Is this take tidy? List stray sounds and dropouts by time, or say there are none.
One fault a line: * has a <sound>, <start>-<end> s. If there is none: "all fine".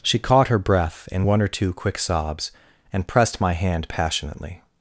all fine